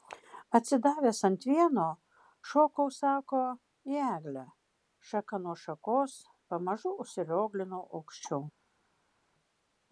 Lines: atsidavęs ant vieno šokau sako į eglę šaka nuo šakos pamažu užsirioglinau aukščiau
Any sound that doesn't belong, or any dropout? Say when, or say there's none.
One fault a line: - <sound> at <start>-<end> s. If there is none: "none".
none